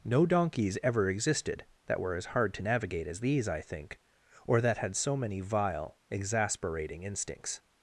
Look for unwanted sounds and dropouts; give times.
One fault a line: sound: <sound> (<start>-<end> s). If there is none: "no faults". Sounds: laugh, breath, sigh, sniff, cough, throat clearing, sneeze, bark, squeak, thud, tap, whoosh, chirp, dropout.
no faults